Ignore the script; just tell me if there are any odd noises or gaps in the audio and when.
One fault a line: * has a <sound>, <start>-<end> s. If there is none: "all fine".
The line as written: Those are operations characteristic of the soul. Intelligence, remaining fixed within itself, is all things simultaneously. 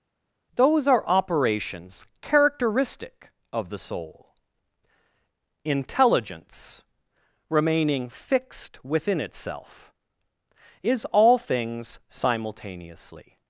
all fine